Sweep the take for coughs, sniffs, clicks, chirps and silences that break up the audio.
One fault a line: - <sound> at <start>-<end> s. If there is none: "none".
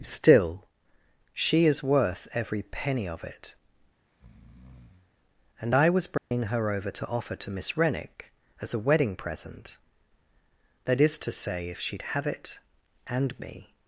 - breath at 4.1-5.1 s
- dropout at 6.2-6.3 s